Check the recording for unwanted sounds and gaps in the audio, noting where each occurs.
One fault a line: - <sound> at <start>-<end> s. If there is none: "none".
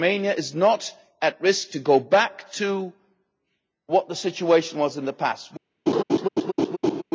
- laugh at 5.9-7.0 s